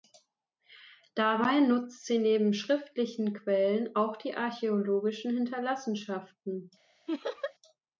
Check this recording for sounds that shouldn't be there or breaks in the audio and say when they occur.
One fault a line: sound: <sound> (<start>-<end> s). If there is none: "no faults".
sound: laugh (7.1-7.5 s)